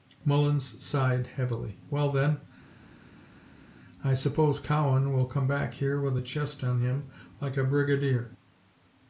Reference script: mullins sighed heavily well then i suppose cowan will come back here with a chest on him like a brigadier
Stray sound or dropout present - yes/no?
no